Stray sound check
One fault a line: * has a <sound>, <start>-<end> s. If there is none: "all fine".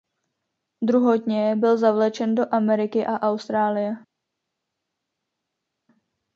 all fine